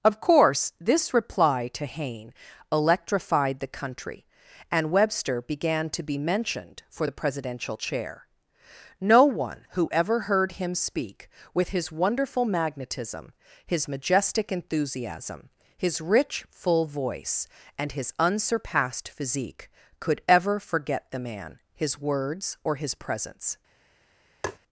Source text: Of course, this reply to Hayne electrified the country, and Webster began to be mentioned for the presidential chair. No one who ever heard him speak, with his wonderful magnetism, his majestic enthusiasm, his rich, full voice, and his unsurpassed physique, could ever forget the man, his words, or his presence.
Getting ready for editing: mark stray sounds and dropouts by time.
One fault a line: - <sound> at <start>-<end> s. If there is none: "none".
- tap at 24.4-24.6 s